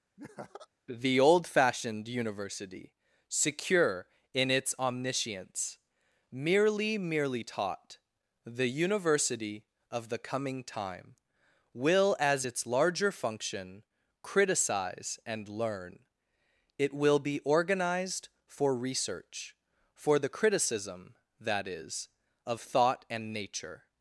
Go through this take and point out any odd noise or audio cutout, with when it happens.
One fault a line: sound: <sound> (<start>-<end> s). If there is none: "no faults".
sound: laugh (0.2-0.7 s)